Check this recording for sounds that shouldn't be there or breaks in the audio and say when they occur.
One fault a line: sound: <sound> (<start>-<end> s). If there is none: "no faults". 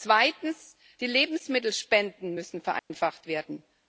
sound: dropout (2.8-2.9 s)